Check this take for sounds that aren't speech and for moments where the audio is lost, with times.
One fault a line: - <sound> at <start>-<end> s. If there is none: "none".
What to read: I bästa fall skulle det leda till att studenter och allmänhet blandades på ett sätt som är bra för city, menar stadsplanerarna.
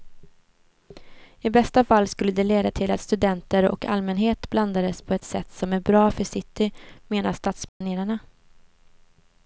- dropout at 7.7-7.8 s